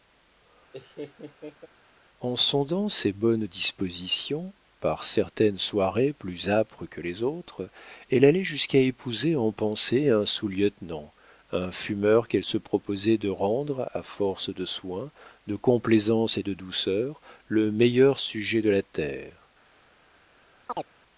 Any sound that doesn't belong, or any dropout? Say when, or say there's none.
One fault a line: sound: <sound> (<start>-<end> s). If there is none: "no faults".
sound: laugh (0.7-1.7 s)
sound: chirp (20.7-20.9 s)